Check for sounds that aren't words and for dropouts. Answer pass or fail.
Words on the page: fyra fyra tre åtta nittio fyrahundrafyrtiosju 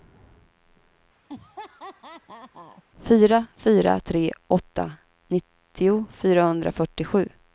fail